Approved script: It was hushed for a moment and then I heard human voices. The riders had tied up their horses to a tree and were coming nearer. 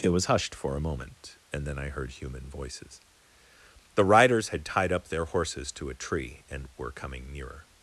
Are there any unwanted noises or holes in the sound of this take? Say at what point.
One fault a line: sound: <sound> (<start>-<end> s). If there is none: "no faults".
no faults